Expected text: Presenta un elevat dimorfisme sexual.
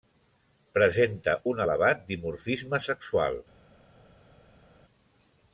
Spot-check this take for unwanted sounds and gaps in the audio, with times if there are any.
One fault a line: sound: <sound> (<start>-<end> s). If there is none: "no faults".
no faults